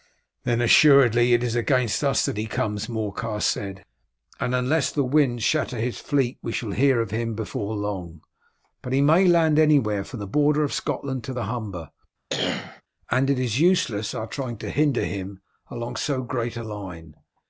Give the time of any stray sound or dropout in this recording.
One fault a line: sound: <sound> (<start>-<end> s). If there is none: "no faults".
sound: cough (12.3-12.8 s)